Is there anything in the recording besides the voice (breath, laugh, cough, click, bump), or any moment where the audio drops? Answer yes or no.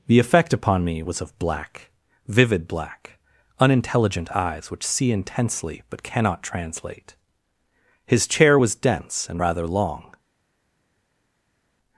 no